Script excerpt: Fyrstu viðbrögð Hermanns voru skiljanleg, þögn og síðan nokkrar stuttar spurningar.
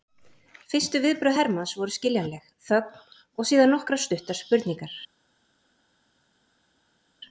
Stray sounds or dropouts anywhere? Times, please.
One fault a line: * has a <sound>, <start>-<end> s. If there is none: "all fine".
all fine